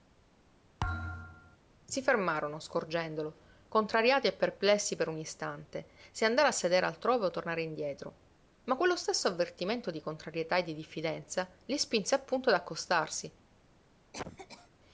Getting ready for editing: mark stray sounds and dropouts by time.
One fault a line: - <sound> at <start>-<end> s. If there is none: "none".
- thud at 0.8-1.6 s
- cough at 14.1-14.7 s